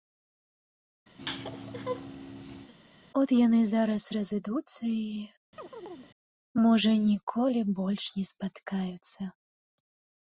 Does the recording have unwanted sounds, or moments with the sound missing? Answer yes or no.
yes